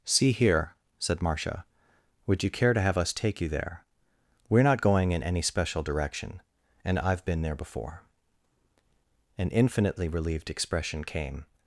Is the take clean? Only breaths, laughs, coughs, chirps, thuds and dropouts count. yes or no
yes